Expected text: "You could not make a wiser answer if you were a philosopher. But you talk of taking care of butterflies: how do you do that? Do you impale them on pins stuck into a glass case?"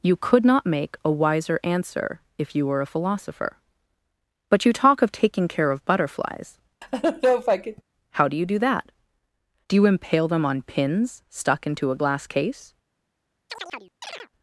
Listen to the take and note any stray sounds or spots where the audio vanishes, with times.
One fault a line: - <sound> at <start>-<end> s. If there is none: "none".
- laugh at 6.8-7.8 s
- chirp at 13.5-14.3 s